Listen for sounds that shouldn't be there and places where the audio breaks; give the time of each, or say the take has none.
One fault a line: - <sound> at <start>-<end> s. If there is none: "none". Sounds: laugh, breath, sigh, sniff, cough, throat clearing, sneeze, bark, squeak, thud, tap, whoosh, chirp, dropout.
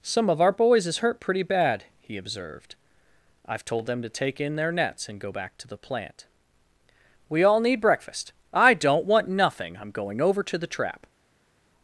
none